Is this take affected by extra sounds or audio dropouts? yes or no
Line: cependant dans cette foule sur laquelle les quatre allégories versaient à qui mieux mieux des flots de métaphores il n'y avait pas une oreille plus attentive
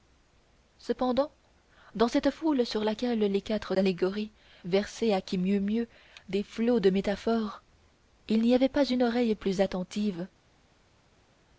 no